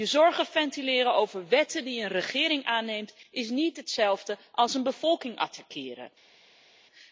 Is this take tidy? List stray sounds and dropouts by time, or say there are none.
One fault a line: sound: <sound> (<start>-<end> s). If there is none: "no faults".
no faults